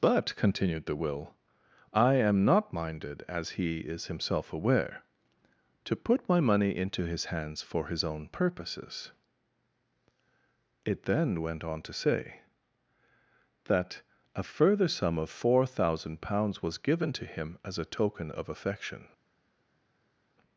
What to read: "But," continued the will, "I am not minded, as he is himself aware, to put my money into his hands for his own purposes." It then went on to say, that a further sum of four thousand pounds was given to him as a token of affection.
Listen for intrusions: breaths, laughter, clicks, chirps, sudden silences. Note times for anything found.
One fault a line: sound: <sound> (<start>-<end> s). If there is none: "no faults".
no faults